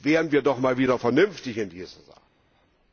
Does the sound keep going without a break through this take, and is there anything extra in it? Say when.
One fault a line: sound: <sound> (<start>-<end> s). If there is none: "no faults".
no faults